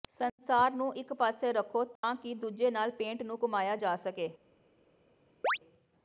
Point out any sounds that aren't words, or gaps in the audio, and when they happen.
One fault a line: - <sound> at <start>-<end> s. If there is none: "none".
- dropout at 2.0-2.0 s
- chirp at 5.4-5.6 s